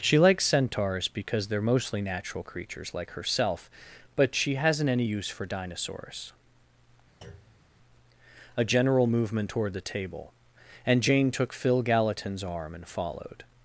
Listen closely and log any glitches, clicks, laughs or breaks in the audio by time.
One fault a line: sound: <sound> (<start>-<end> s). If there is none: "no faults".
sound: thud (7.2-7.7 s)